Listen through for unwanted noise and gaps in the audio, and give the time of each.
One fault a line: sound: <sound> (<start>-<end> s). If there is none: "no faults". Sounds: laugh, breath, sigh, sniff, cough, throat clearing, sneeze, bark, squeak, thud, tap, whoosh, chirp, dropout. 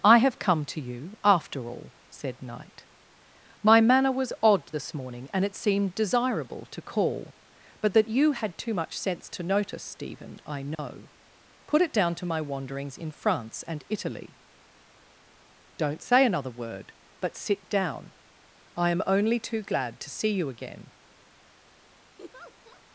sound: dropout (10.7-10.8 s)
sound: laugh (22.2-22.8 s)